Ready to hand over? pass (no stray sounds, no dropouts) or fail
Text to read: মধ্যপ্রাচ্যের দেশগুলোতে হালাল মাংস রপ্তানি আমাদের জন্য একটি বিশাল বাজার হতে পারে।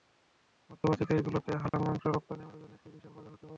fail